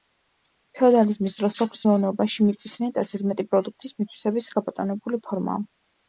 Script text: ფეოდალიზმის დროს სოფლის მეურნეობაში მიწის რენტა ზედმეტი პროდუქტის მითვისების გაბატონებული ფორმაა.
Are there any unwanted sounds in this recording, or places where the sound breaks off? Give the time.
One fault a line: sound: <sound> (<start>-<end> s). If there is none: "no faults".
no faults